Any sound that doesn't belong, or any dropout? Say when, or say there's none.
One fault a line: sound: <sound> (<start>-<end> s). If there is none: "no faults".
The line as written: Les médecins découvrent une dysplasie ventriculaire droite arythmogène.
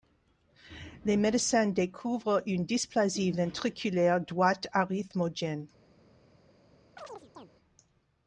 sound: chirp (7.0-7.5 s)